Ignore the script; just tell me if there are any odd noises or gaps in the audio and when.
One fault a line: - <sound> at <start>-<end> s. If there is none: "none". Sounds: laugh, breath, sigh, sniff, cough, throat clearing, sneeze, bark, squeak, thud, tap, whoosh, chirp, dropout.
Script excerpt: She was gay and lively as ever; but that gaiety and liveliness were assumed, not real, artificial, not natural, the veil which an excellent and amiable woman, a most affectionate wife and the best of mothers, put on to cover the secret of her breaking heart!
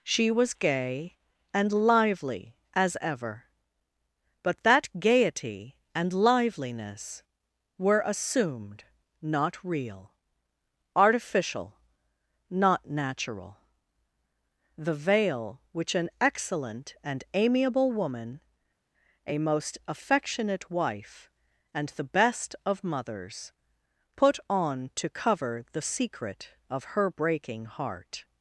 none